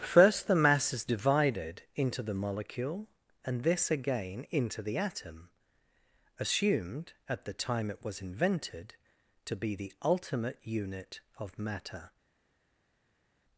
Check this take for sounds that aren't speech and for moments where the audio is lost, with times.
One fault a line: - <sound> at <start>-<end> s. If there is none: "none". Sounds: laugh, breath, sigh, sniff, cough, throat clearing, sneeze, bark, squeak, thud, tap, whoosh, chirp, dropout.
none